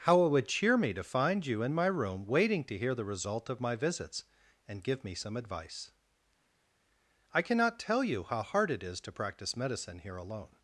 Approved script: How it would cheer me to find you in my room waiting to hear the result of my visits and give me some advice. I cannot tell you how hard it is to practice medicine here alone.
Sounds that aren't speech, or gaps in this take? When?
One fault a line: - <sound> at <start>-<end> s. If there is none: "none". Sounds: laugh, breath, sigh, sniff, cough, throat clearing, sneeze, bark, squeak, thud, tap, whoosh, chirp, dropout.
none